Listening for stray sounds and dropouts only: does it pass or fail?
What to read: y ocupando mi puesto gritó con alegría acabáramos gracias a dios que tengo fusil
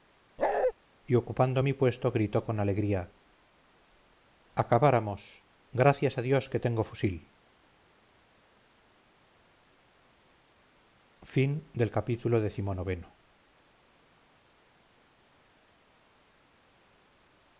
fail